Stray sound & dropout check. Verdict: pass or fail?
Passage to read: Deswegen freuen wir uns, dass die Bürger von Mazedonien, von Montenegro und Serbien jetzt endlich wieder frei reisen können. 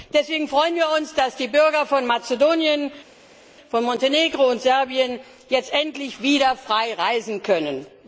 pass